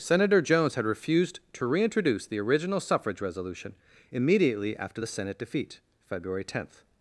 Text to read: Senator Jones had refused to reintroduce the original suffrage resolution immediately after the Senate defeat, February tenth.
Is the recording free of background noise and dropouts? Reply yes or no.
yes